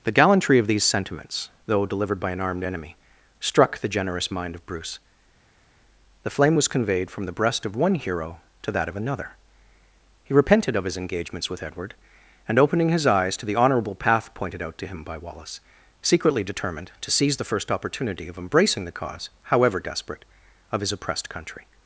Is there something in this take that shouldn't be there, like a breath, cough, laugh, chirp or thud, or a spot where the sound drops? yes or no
no